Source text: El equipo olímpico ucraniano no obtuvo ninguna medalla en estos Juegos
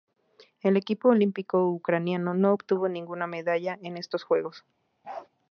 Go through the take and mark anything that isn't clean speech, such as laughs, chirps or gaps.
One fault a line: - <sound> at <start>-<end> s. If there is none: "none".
- bark at 5.0-5.3 s